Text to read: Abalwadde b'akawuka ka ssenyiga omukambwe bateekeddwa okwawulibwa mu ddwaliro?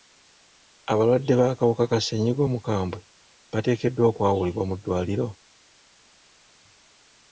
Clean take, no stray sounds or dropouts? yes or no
yes